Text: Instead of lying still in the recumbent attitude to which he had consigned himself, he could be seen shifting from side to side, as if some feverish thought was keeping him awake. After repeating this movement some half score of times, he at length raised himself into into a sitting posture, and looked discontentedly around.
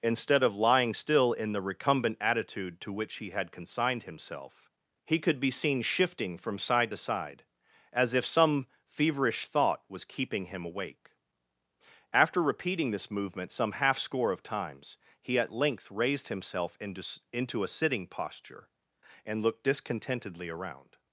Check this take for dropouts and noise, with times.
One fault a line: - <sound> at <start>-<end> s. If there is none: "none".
none